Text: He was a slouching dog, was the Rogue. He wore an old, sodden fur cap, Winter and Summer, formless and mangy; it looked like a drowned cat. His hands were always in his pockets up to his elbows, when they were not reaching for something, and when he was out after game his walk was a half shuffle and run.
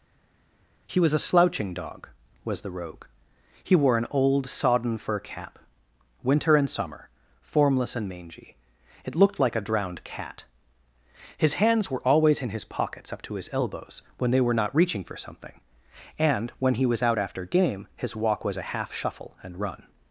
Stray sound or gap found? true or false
false